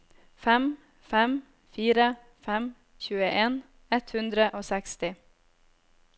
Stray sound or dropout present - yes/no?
no